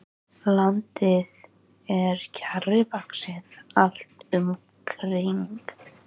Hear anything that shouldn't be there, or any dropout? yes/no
no